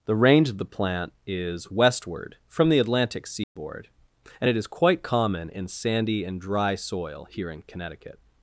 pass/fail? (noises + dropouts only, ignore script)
fail